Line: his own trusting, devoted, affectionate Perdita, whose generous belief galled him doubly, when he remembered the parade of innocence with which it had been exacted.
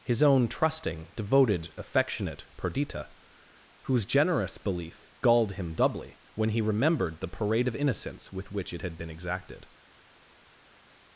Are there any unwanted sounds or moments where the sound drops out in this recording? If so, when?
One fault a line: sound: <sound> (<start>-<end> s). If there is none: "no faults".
no faults